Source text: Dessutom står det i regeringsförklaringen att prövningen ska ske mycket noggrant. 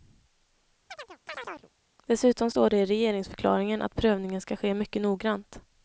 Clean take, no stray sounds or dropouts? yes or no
no